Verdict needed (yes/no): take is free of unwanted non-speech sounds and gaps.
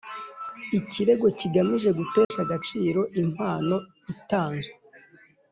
no